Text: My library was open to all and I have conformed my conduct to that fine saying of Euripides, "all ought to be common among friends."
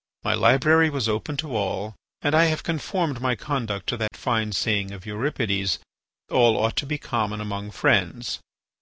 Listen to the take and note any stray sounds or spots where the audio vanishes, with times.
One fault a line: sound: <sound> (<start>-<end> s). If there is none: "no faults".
sound: dropout (4.1-4.1 s)